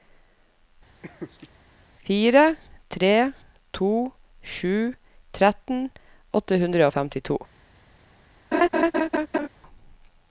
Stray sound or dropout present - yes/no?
yes